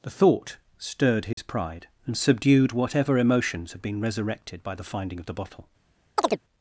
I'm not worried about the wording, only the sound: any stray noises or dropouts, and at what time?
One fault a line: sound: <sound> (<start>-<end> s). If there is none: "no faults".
sound: dropout (1.3-1.4 s)
sound: chirp (6.2-6.4 s)